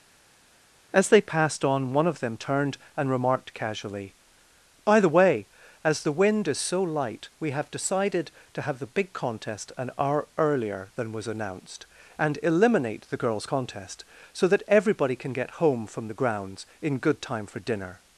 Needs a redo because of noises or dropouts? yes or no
no